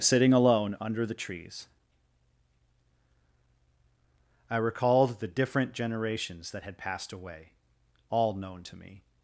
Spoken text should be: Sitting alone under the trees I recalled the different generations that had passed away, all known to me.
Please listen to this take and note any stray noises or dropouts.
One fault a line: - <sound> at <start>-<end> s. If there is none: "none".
none